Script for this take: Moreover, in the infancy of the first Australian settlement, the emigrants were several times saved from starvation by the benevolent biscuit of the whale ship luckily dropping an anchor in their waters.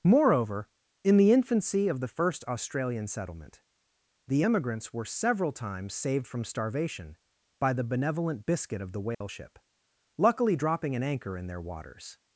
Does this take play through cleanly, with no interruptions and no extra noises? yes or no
no